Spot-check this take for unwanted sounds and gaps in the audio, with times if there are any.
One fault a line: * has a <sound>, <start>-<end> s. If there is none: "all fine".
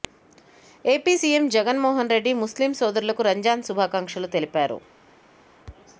all fine